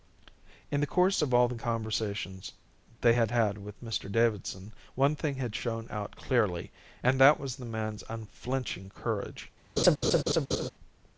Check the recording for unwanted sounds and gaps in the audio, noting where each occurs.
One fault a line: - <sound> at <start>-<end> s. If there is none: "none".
- laugh at 9.8-10.7 s